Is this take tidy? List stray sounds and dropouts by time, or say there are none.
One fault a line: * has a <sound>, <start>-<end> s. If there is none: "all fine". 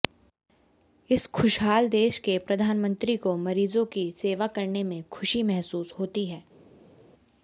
all fine